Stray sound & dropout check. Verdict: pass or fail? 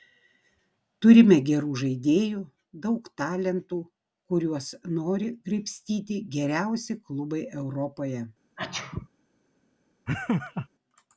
fail